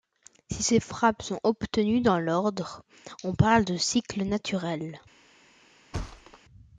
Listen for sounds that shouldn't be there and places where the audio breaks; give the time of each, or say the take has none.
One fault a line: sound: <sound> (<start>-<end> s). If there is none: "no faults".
sound: thud (5.9-6.4 s)